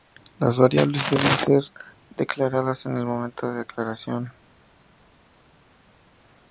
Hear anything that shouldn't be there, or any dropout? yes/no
no